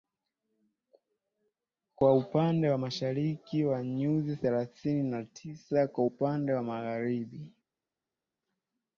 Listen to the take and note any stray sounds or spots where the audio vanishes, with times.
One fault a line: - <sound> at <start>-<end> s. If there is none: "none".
none